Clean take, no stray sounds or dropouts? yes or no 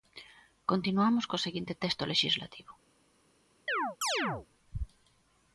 no